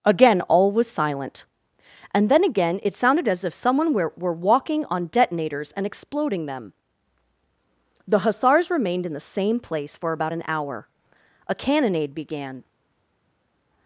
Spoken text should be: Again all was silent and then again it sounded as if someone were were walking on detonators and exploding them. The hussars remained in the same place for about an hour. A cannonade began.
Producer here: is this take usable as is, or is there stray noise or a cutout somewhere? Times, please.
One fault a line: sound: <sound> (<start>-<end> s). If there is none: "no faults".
no faults